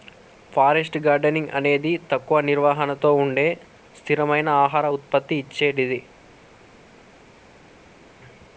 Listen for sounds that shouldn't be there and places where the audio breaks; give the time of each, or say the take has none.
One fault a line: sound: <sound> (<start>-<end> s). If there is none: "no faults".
no faults